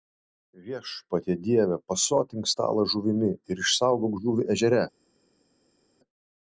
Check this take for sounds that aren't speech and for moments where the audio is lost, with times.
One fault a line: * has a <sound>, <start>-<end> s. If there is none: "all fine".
all fine